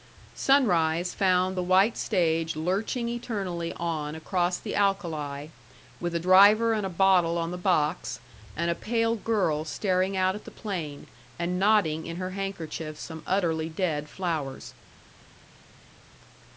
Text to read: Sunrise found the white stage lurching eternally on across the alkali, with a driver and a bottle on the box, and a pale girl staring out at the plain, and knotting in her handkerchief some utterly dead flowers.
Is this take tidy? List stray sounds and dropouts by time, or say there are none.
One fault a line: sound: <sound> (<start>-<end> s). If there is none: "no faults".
no faults